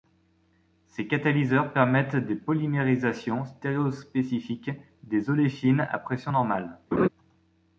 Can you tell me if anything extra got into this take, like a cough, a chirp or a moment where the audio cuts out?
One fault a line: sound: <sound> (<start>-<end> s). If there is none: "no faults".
sound: laugh (6.9-7.1 s)